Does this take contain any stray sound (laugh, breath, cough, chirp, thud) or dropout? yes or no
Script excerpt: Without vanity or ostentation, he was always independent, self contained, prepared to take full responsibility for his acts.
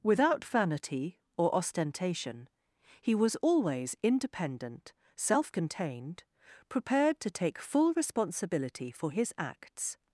no